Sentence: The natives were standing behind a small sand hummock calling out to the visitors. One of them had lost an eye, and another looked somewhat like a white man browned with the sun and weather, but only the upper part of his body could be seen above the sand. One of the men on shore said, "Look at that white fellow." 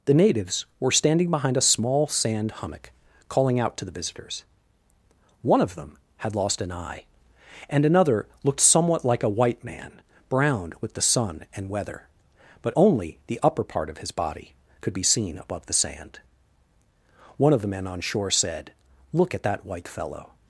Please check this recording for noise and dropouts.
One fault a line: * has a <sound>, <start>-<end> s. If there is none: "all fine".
all fine